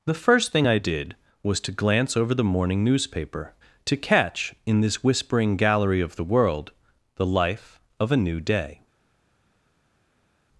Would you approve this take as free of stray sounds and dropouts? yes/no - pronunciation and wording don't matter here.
yes